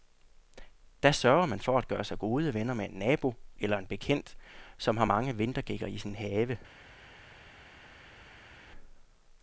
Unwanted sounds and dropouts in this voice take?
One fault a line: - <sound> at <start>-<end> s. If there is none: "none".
none